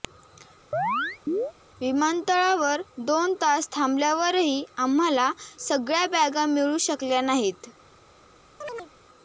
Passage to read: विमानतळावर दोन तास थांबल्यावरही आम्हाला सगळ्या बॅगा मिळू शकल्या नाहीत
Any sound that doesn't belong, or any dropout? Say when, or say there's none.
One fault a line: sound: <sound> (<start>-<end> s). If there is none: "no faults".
sound: chirp (0.7-1.5 s)
sound: chirp (8.6-8.9 s)